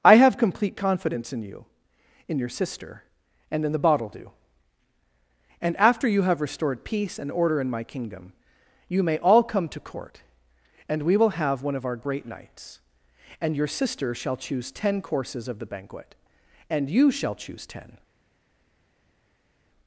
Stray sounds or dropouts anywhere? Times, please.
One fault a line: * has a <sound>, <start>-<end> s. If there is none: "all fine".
all fine